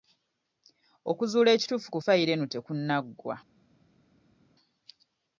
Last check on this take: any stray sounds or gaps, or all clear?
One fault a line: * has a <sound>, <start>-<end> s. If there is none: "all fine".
all fine